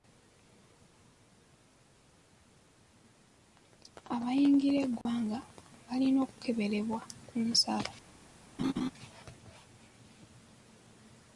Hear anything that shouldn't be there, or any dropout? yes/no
yes